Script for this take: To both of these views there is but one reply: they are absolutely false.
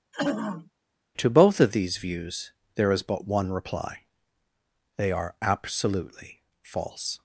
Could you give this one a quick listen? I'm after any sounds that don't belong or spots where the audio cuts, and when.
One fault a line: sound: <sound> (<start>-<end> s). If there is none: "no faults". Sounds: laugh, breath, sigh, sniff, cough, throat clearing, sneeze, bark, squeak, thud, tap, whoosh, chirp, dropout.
sound: throat clearing (0.1-0.7 s)